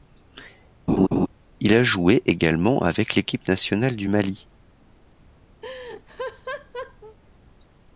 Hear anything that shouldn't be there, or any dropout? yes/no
yes